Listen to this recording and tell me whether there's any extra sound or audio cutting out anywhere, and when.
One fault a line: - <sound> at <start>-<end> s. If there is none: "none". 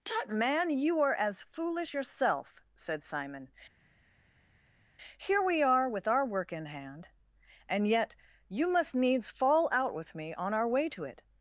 none